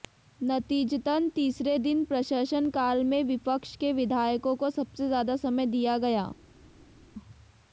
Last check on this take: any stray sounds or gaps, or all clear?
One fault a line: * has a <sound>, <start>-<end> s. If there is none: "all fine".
all fine